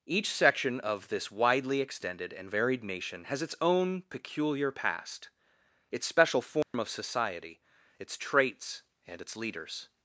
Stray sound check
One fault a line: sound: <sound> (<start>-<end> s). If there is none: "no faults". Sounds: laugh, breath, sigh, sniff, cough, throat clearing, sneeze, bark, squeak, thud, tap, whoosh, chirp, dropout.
sound: dropout (6.6-6.7 s)